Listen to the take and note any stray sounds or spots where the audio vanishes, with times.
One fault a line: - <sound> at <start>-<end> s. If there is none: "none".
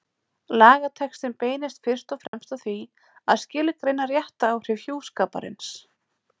- dropout at 2.3-2.3 s